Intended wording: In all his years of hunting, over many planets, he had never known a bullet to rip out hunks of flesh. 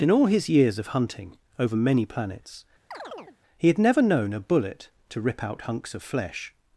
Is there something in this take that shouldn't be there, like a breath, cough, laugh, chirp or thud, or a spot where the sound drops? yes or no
yes